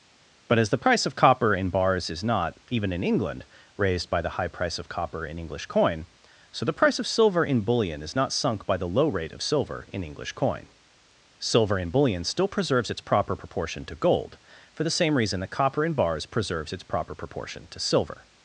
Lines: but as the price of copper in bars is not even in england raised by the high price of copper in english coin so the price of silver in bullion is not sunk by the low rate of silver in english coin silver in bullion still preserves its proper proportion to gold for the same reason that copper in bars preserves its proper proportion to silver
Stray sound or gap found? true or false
false